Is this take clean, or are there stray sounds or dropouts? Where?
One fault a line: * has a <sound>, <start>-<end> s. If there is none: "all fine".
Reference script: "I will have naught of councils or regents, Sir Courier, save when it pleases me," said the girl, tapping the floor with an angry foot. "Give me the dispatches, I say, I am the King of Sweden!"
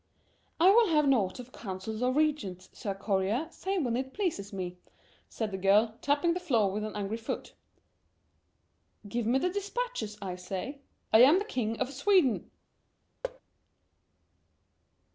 * has a thud, 13.2-13.4 s